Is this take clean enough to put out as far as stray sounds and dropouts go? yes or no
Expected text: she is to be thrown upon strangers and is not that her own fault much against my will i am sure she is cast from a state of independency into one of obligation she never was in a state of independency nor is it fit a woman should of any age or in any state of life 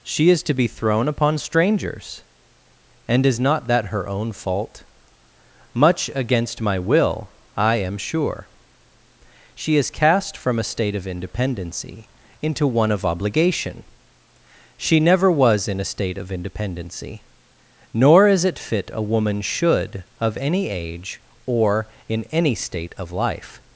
yes